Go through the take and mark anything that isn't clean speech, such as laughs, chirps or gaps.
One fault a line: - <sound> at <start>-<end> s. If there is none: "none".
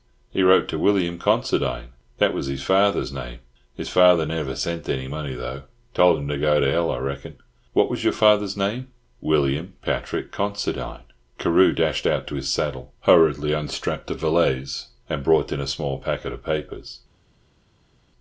none